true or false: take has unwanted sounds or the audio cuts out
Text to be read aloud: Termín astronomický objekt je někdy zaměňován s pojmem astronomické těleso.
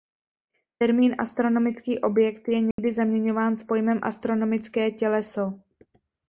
true